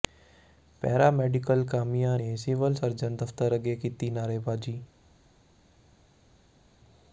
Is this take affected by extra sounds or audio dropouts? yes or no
no